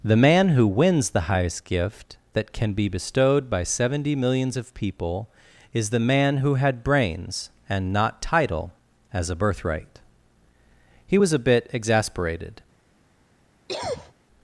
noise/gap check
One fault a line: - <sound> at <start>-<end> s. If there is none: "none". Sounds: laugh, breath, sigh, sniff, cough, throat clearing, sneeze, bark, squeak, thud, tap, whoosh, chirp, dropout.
- cough at 13.7-14.1 s